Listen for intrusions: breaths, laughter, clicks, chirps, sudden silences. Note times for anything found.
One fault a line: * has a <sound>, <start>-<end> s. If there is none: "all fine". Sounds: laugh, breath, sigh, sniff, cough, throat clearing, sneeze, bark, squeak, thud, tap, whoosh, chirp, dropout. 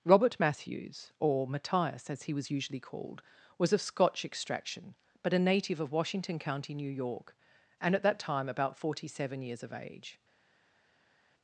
all fine